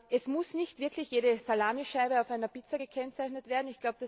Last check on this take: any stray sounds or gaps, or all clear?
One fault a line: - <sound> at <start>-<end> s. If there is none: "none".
none